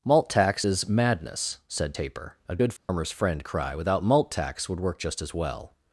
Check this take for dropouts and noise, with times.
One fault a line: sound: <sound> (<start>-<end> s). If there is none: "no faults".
sound: dropout (2.8-2.9 s)